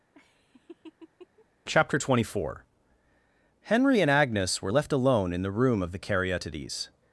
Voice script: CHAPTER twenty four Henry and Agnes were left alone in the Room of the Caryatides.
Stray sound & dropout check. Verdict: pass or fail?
fail